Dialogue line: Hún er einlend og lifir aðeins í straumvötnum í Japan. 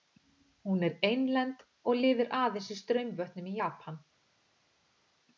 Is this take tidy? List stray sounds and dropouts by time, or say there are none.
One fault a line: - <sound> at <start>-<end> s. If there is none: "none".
none